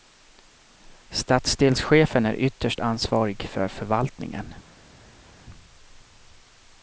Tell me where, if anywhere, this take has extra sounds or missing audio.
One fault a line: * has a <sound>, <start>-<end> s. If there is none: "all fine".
all fine